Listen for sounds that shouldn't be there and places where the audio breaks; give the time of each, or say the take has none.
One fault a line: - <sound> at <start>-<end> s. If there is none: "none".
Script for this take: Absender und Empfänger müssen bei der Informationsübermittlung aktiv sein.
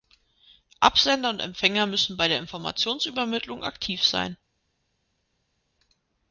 none